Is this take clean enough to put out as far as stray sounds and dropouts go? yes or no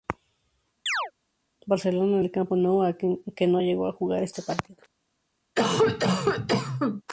no